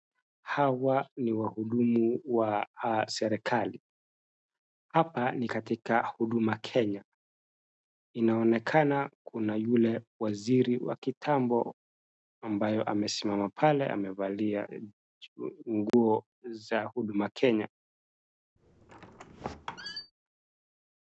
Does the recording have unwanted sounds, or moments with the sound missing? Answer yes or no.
yes